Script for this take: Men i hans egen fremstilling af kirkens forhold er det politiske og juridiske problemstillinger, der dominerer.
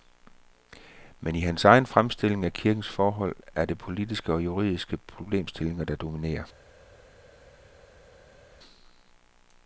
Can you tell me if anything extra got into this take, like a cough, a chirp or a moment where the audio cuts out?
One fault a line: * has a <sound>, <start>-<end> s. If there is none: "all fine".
all fine